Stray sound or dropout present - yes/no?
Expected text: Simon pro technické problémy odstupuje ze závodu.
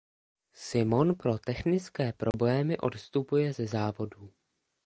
yes